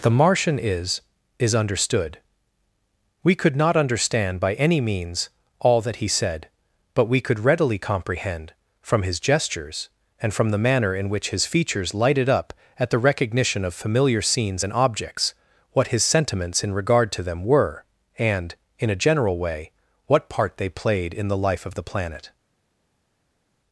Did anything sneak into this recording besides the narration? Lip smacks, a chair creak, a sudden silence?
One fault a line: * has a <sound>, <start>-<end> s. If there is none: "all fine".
all fine